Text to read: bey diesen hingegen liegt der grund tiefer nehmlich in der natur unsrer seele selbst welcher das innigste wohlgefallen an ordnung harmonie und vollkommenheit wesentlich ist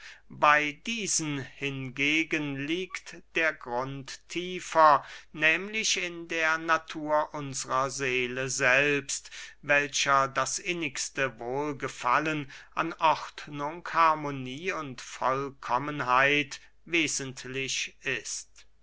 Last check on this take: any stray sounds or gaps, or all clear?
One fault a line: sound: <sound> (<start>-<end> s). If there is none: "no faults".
no faults